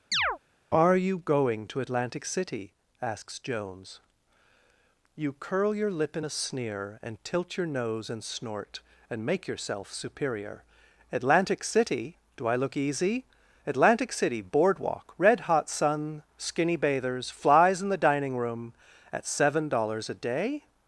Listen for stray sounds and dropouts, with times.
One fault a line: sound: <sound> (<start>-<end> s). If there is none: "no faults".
sound: chirp (0.1-0.4 s)